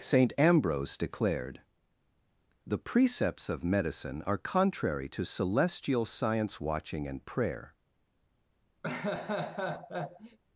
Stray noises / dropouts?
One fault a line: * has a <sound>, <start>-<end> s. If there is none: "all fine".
* has a laugh, 8.8-10.4 s